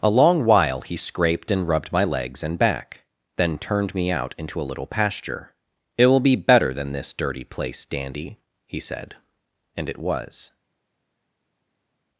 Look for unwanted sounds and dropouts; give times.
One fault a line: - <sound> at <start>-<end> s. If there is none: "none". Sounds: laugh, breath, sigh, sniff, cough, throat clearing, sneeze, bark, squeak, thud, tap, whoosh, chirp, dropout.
none